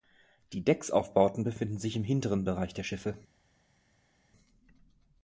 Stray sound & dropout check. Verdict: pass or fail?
pass